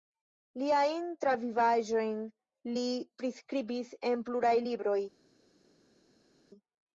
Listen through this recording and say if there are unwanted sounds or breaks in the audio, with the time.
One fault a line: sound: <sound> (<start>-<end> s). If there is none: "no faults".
no faults